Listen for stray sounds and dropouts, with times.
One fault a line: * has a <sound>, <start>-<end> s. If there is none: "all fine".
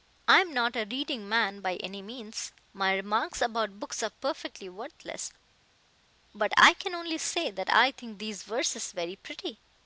all fine